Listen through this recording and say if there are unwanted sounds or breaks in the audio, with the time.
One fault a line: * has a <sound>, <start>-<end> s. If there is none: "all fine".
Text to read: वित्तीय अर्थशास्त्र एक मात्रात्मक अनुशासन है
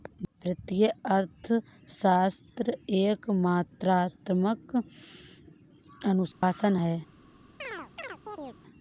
* has a dropout, 6.3-6.4 s
* has a chirp, 7.6-8.6 s